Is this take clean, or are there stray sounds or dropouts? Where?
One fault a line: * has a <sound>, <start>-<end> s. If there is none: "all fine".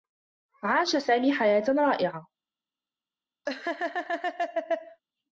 * has a laugh, 3.5-5.0 s